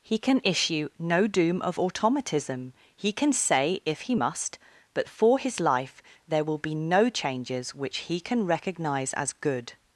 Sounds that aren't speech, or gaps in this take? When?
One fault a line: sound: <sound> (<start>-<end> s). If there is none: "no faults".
no faults